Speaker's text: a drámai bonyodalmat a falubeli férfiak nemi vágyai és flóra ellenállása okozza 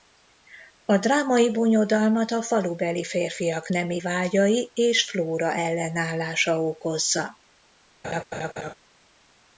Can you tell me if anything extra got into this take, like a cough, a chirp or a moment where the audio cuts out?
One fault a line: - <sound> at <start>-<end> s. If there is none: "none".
- laugh at 8.0-8.7 s